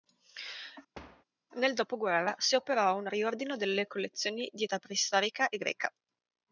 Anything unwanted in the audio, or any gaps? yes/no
yes